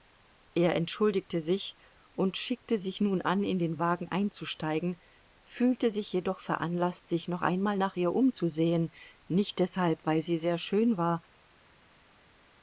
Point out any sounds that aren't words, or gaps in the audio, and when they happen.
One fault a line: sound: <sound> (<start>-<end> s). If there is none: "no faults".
no faults